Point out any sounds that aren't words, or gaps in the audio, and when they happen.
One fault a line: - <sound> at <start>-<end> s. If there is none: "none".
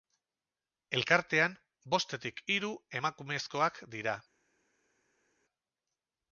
none